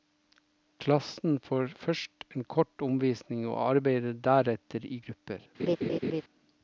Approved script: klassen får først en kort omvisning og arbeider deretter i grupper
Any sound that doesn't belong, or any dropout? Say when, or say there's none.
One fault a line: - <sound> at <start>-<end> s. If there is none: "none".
- laugh at 5.6-6.2 s